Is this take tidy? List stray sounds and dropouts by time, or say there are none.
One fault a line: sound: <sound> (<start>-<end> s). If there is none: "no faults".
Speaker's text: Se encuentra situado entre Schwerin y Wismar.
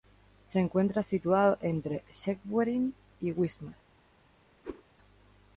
sound: whoosh (4.6-4.8 s)